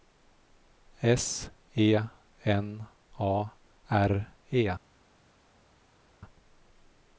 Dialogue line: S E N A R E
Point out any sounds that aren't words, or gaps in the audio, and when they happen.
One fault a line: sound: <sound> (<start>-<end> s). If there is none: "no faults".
no faults